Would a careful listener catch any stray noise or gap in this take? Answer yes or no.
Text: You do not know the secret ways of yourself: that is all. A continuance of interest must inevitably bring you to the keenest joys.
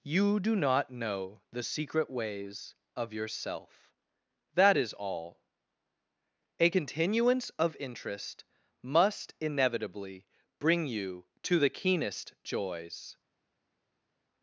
no